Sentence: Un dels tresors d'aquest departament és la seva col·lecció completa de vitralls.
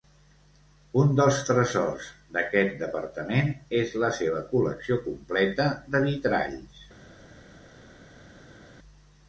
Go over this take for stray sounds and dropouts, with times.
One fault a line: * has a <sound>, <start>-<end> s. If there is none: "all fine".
all fine